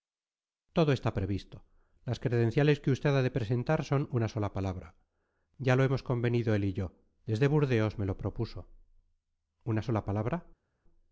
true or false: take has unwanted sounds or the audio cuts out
false